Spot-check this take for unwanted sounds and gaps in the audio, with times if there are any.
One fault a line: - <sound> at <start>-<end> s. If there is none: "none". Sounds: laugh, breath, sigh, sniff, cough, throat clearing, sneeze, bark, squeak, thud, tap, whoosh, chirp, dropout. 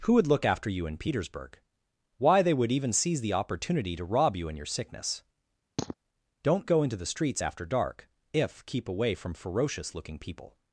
- sniff at 5.8-5.9 s